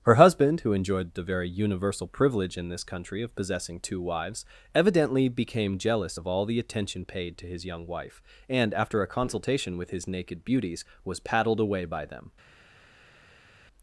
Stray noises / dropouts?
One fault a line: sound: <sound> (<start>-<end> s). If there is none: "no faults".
no faults